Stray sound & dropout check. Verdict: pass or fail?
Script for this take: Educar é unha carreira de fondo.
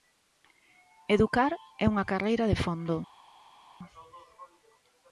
pass